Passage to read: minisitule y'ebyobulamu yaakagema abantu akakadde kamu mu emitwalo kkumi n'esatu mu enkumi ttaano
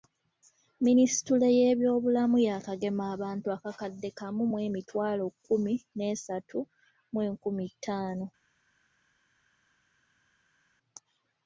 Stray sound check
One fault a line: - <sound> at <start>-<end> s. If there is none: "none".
none